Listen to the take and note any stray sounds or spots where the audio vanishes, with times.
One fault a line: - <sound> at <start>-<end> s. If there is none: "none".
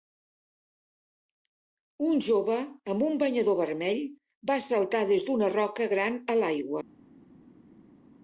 none